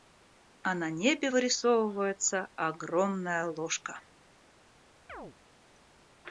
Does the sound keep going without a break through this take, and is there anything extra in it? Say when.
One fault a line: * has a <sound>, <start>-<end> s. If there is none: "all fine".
* has a chirp, 5.1-5.4 s